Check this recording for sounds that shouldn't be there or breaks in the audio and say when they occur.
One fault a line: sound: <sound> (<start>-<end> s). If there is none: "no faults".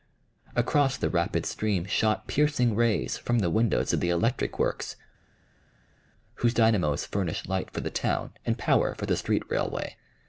no faults